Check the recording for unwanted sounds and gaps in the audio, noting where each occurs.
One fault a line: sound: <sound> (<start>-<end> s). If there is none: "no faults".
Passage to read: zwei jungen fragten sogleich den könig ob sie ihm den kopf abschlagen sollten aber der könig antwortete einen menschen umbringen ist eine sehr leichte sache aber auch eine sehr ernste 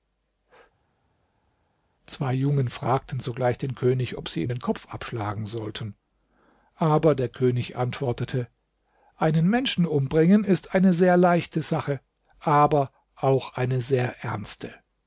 no faults